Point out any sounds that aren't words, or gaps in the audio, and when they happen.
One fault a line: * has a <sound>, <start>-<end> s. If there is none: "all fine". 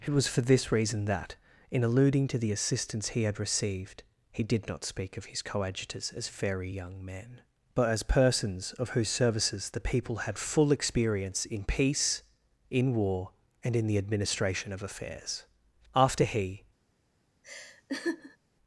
* has a laugh, 17.4-18.4 s